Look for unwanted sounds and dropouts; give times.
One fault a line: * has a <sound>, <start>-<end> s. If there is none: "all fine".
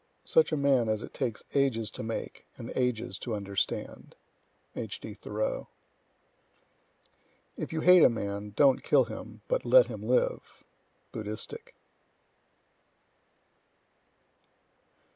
all fine